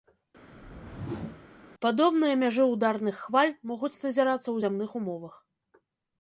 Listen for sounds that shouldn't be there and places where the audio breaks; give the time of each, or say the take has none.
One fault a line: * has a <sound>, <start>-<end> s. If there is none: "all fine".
* has a whoosh, 0.5-1.5 s